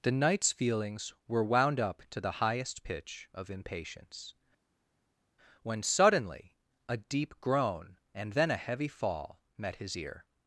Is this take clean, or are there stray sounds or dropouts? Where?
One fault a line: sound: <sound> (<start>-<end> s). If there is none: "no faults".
no faults